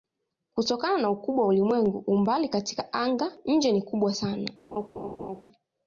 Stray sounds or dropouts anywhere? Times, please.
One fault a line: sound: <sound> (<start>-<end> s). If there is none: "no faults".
sound: laugh (4.7-5.4 s)